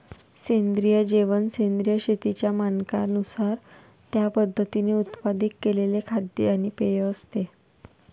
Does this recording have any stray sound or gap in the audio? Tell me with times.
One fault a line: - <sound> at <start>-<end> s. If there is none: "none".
none